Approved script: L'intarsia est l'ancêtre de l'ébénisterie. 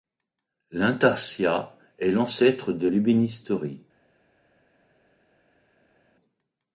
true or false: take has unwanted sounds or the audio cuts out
false